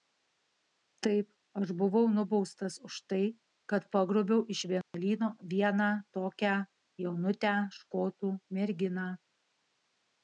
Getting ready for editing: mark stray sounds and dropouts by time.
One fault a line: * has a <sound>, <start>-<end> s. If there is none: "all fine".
* has a dropout, 4.8-4.9 s